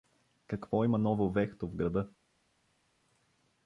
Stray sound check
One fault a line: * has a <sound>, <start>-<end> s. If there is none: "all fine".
all fine